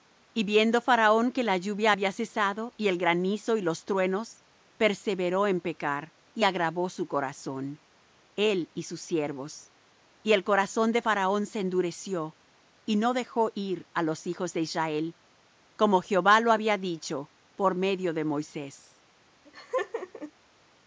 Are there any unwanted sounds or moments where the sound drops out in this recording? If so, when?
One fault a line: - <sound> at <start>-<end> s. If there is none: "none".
- laugh at 19.5-20.3 s